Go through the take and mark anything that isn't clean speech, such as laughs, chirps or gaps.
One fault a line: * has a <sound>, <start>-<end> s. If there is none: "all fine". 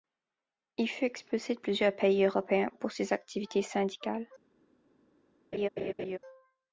* has a laugh, 5.5-6.2 s